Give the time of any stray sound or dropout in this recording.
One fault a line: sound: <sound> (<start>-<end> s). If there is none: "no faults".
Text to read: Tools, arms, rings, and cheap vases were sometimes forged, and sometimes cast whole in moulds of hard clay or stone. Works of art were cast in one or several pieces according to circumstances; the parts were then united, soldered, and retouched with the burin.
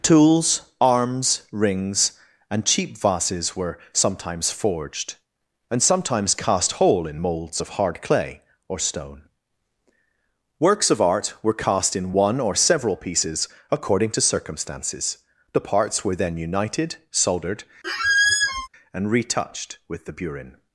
sound: squeak (17.8-18.7 s)